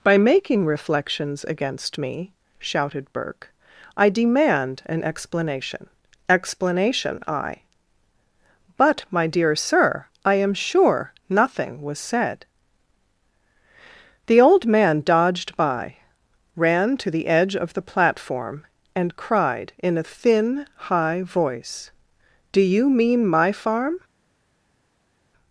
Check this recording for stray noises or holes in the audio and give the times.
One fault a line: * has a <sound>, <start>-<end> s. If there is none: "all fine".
all fine